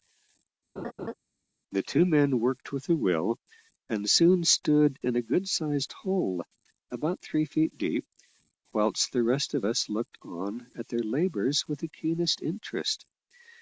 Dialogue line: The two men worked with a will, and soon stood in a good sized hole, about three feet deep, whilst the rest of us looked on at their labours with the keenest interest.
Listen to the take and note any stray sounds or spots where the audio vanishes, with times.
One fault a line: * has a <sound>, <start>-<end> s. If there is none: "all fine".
* has a laugh, 0.8-1.1 s